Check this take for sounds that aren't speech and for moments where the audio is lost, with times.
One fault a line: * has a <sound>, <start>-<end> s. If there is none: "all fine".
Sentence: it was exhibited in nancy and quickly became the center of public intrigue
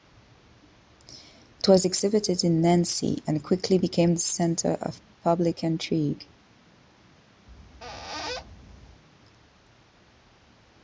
* has a squeak, 7.5-9.0 s